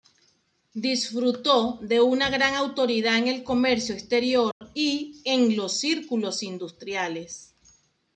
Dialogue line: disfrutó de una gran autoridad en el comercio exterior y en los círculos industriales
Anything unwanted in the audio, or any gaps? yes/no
yes